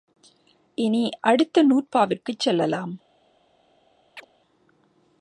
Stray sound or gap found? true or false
true